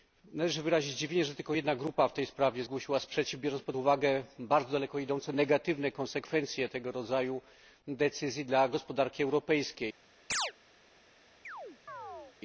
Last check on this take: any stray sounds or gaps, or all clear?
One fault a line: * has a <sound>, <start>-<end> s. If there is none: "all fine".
* has a chirp, 10.3-10.5 s
* has a chirp, 11.4-12.4 s